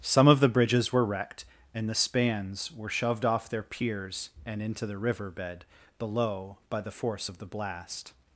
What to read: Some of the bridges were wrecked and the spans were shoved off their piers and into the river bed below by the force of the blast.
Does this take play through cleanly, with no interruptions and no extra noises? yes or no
yes